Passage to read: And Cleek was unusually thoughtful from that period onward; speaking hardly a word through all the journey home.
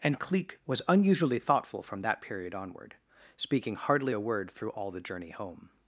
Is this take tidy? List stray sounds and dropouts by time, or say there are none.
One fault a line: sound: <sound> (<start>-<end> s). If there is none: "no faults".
no faults